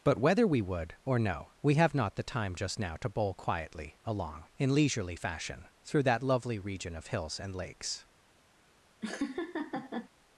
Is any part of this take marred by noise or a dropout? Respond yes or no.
yes